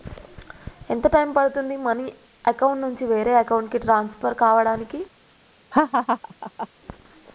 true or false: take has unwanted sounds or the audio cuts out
true